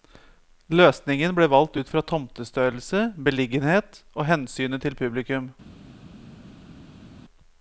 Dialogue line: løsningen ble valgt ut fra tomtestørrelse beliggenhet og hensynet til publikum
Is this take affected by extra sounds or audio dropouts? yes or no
no